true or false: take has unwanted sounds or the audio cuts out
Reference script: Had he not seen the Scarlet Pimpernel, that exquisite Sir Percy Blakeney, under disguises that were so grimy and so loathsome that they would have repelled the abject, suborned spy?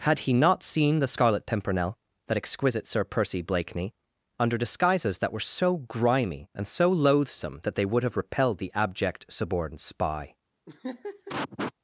true